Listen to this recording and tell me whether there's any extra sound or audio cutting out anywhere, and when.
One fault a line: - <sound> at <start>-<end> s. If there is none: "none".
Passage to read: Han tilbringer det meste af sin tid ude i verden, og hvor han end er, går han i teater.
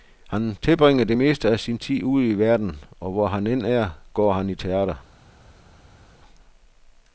none